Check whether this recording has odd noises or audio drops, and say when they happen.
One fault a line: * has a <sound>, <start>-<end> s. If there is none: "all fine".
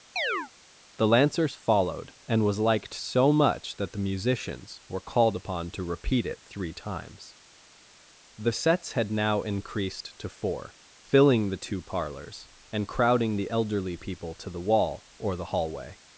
* has a chirp, 0.2-0.5 s